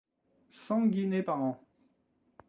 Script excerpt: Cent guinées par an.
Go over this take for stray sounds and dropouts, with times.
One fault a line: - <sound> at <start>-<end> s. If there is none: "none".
none